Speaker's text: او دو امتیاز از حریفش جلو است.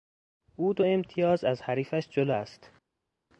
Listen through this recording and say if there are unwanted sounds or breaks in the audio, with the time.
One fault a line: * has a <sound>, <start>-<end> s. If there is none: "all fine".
all fine